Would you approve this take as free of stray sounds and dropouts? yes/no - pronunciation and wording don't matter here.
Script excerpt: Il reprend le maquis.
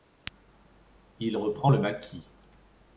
yes